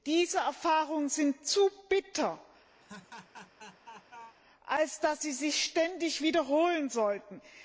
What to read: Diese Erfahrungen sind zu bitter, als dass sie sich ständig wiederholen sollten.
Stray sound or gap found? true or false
true